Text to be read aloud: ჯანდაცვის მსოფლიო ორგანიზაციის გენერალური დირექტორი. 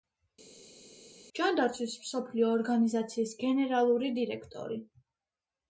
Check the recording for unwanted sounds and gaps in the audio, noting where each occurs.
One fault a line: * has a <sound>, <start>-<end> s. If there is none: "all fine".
all fine